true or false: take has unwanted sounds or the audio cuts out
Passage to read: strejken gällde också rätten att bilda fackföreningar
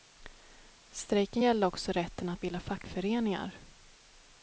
false